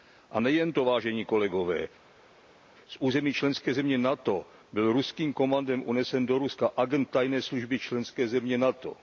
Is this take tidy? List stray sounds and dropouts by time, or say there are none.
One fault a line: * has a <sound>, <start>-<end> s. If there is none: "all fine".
all fine